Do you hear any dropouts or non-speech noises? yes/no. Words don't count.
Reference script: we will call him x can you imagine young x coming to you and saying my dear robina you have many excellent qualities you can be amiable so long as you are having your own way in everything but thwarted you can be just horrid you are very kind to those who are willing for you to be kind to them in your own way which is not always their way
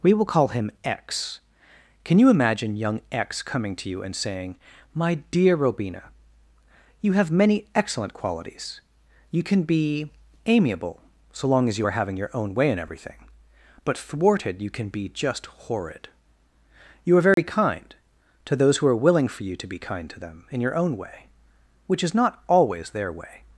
yes